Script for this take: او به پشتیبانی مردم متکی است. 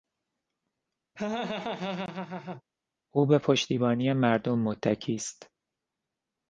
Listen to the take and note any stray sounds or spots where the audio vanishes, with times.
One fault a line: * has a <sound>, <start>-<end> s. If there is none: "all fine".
* has a laugh, 1.2-2.6 s